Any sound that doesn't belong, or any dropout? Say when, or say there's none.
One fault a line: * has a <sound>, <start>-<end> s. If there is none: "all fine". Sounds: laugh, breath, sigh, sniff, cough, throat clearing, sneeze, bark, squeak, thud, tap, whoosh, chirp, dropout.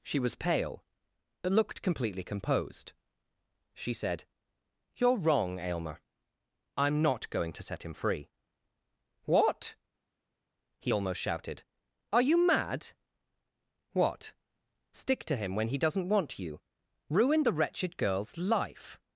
all fine